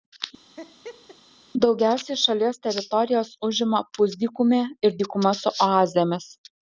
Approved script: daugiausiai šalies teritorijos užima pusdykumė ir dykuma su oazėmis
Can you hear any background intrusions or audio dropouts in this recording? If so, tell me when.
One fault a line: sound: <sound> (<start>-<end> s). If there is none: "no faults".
sound: laugh (0.6-1.2 s)